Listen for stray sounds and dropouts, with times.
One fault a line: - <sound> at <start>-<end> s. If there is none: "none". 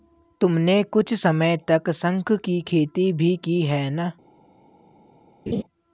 - laugh at 5.5-5.6 s